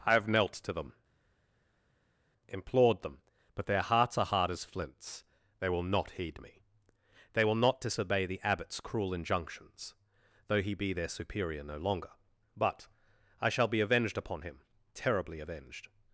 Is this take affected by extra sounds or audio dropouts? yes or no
no